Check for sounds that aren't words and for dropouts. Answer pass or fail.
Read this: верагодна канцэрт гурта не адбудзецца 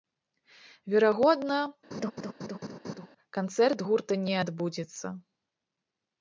fail